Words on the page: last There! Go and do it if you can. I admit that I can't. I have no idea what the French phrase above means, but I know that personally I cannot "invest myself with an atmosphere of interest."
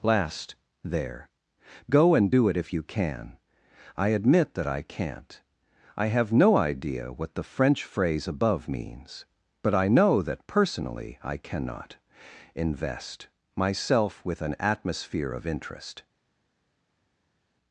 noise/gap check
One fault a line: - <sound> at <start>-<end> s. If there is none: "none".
none